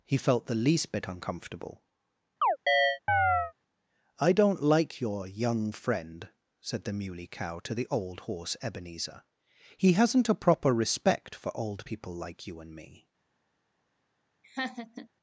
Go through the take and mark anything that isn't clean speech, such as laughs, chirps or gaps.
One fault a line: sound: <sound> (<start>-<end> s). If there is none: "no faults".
sound: chirp (2.4-3.5 s)
sound: laugh (14.4-15.1 s)